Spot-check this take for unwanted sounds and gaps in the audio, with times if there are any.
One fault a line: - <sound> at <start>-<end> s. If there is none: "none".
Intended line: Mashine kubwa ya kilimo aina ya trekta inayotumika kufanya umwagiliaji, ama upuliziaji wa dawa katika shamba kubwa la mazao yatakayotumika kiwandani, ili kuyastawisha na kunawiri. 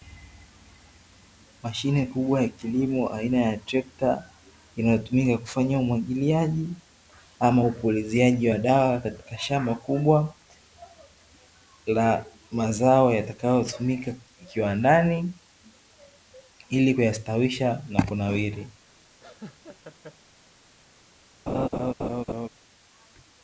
- laugh at 19.2-20.2 s
- laugh at 21.5-22.5 s